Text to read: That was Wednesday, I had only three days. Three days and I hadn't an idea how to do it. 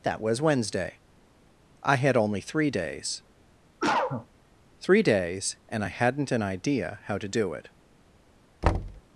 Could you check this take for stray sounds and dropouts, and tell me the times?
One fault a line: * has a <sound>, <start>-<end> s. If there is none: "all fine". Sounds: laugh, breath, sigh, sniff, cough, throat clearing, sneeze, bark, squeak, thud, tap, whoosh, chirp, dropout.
* has a cough, 3.8-4.3 s
* has a thud, 8.6-9.0 s